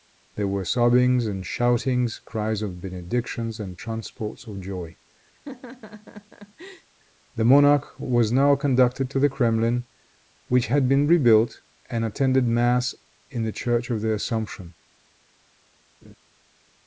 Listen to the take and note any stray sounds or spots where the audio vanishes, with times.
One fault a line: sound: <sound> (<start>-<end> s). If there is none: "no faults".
sound: laugh (5.3-6.9 s)
sound: laugh (16.0-16.1 s)